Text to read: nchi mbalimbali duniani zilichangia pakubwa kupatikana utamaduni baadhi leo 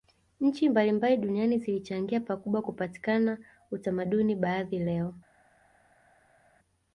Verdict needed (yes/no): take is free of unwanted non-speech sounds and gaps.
yes